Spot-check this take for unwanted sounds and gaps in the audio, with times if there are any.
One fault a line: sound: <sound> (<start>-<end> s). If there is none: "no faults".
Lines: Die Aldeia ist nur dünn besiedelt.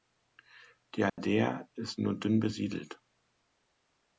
sound: dropout (1.1-1.2 s)